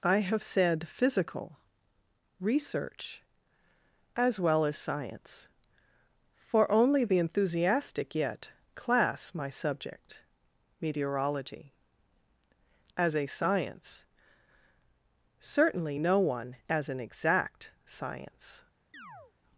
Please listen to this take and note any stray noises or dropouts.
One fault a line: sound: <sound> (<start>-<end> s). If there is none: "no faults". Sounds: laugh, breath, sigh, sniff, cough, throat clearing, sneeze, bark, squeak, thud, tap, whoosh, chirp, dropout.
sound: chirp (18.9-19.3 s)